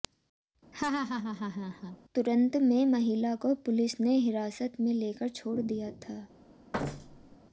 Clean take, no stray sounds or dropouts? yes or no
no